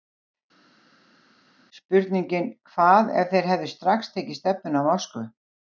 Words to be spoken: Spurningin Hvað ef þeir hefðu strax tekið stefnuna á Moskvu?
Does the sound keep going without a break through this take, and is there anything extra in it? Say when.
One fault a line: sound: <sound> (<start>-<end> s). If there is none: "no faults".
no faults